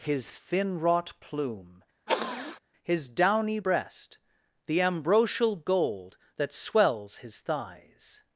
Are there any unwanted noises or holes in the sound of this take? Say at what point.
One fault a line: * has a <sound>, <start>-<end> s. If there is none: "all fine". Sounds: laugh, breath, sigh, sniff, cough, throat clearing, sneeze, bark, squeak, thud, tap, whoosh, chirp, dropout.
* has a sniff, 2.1-2.6 s